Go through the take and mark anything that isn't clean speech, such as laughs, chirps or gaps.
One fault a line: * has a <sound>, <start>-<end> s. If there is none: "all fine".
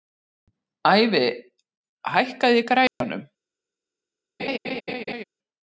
* has a dropout, 2.9-3.0 s
* has a laugh, 4.4-5.2 s